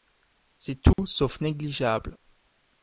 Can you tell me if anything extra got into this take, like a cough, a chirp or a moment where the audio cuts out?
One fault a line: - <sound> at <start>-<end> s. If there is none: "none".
- dropout at 0.9-1.0 s